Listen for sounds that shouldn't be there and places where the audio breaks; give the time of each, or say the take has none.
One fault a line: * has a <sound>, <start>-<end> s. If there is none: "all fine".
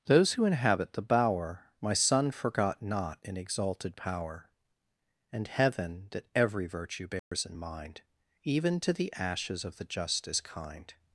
* has a dropout, 7.2-7.3 s